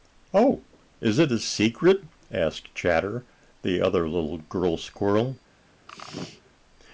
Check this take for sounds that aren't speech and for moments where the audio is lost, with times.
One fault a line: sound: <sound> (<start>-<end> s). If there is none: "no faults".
sound: sneeze (5.9-6.5 s)